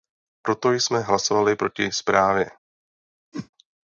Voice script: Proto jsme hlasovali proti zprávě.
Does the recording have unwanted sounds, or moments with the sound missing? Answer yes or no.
yes